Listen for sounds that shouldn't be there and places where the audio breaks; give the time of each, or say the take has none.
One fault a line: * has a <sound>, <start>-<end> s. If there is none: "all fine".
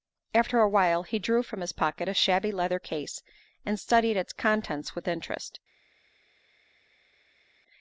all fine